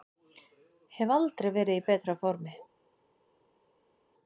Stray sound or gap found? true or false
false